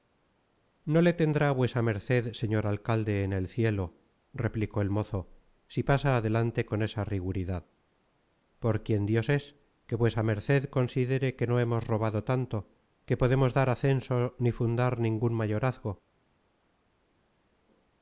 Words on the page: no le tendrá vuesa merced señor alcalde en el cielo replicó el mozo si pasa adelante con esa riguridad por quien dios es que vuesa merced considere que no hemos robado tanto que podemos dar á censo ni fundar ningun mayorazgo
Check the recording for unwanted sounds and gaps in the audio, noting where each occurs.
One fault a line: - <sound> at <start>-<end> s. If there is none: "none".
none